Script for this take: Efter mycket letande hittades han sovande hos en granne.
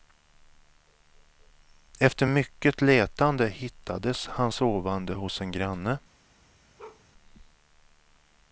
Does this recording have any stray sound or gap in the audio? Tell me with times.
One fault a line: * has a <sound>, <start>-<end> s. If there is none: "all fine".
* has a bark, 6.8-7.0 s